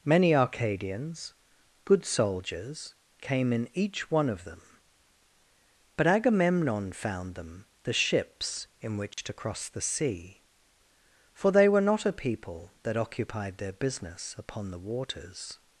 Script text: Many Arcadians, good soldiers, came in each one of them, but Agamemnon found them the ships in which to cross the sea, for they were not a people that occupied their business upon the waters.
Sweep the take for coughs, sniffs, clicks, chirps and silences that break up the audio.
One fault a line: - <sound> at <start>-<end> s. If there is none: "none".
- dropout at 9.1-9.2 s